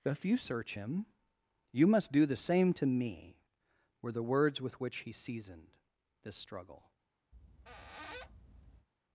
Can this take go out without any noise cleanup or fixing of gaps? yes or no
no